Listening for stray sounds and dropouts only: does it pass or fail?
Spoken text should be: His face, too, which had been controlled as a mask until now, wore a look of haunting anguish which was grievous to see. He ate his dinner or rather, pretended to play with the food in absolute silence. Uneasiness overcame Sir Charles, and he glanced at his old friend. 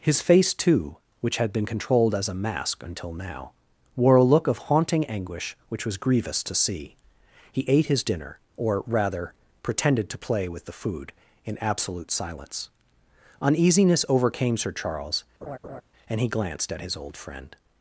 fail